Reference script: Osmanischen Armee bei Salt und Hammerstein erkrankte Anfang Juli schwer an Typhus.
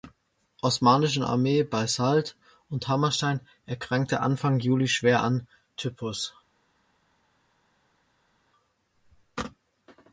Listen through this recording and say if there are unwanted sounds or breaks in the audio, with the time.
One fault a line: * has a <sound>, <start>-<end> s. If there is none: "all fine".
all fine